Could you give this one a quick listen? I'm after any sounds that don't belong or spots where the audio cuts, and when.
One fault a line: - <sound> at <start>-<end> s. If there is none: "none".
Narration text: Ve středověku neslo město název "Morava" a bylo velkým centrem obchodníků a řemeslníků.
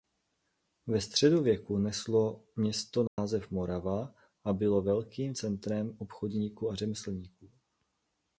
- dropout at 3.1-3.2 s